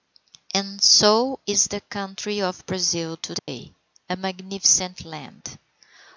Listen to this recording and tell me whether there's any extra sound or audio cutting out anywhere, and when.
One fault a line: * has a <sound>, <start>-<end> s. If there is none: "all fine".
* has a dropout, 3.4-3.5 s